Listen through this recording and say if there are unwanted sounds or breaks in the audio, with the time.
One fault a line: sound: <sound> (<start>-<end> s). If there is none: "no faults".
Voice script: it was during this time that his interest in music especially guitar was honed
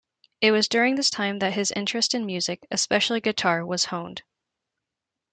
no faults